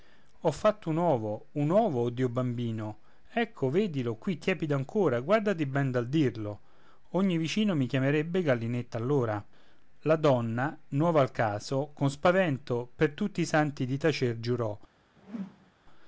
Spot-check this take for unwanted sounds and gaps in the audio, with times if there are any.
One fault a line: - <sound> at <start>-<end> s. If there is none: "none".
- whoosh at 15.2-15.7 s